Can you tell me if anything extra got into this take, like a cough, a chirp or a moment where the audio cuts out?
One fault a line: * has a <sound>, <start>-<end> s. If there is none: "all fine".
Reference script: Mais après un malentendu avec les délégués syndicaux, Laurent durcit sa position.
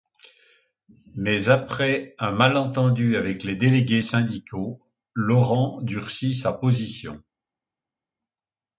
all fine